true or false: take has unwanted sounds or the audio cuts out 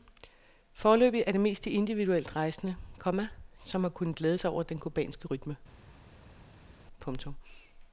false